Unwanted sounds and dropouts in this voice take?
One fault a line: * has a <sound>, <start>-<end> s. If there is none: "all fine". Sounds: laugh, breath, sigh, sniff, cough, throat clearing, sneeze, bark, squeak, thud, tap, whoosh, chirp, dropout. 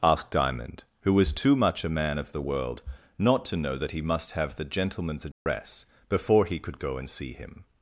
* has a dropout, 5.3-5.5 s